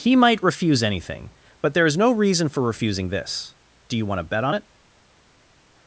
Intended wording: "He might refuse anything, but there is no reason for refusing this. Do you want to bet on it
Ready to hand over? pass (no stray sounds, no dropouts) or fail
pass